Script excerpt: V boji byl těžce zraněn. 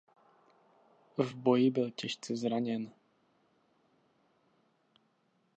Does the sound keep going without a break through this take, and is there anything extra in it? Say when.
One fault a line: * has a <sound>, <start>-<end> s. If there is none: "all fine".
all fine